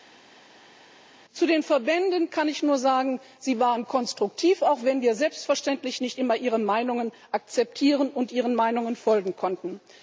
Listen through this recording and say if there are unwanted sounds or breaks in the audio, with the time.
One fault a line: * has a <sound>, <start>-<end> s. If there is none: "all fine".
all fine